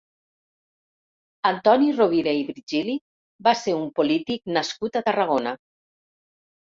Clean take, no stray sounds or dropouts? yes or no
yes